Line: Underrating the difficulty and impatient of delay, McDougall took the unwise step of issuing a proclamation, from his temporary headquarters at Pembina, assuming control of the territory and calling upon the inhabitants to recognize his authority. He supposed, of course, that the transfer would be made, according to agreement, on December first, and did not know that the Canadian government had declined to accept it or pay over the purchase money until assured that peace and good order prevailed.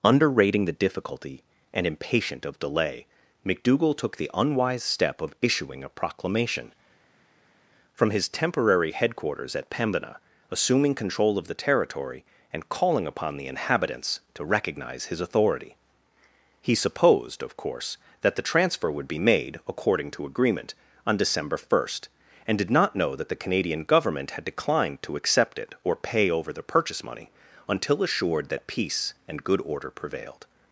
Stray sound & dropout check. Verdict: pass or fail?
pass